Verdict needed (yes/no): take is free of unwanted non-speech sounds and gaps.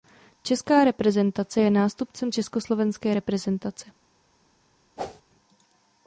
no